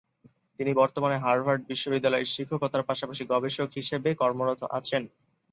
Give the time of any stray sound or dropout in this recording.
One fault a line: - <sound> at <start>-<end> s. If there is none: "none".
none